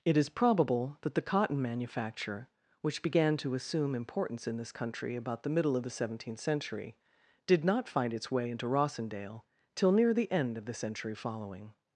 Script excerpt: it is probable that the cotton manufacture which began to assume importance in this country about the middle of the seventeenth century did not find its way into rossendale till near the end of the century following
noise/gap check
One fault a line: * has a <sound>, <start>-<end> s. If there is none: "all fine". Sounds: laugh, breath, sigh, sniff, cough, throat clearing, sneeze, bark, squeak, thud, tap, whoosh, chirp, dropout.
all fine